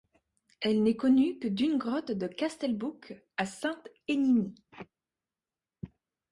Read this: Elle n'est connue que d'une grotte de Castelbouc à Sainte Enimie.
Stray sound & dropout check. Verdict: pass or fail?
pass